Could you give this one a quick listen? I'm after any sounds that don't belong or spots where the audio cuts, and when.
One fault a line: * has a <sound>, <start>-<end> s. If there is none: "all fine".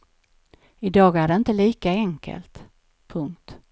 all fine